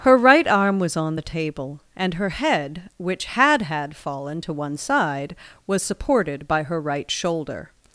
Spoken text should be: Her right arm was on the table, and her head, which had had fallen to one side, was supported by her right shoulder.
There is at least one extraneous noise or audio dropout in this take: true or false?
false